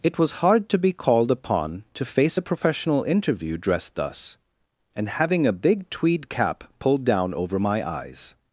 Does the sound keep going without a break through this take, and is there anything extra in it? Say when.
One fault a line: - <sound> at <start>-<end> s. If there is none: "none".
none